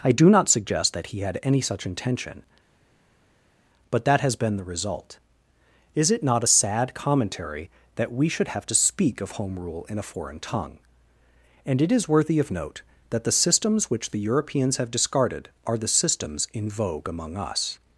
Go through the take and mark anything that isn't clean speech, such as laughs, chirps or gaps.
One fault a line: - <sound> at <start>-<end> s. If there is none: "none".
none